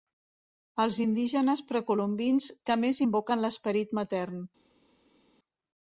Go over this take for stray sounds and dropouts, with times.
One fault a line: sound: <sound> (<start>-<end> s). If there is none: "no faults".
no faults